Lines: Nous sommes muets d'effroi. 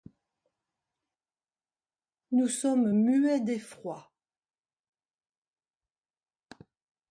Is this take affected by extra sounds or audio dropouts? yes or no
no